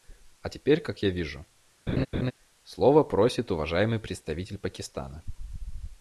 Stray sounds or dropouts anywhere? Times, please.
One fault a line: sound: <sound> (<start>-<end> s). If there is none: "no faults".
sound: laugh (1.9-2.3 s)